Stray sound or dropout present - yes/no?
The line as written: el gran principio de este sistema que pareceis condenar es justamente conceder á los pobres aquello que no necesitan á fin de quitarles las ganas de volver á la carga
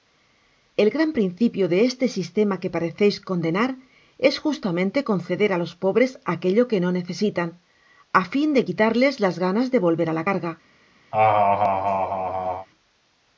yes